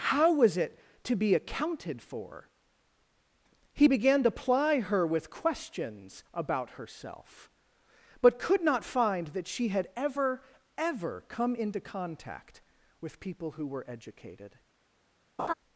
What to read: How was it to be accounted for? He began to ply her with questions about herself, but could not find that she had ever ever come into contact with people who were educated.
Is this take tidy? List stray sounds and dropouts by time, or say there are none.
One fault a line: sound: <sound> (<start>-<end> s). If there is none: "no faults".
sound: laugh (15.4-15.5 s)